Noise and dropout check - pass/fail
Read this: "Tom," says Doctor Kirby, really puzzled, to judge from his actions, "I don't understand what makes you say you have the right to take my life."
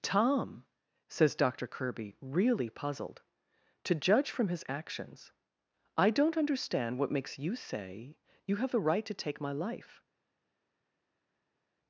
pass